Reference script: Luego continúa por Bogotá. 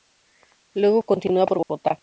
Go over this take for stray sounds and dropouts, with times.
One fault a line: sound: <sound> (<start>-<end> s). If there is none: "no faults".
sound: dropout (1.6-1.7 s)